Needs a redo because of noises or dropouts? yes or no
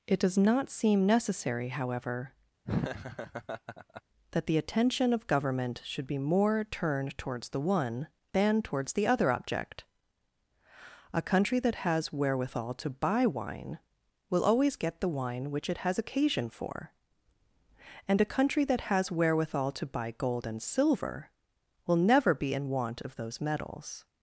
yes